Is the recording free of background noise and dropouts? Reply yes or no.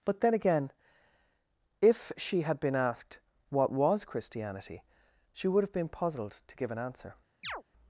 no